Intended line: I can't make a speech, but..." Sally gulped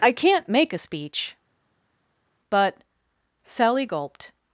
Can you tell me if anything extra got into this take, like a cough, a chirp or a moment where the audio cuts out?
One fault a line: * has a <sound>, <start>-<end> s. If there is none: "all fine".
all fine